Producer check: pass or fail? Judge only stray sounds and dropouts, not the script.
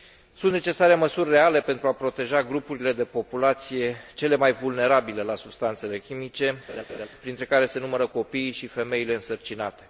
fail